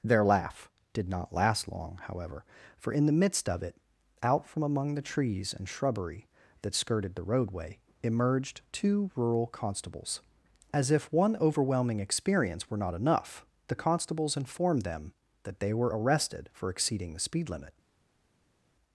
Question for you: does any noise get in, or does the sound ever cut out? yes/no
no